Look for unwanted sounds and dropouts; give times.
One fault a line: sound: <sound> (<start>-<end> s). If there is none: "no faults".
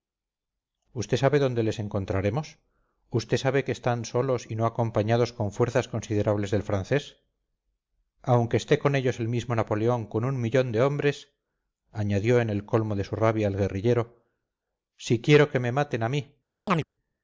sound: chirp (16.7-16.8 s)